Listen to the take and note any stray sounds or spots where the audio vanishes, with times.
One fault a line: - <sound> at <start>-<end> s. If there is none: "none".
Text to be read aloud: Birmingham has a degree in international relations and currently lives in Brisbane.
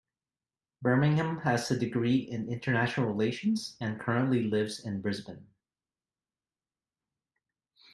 none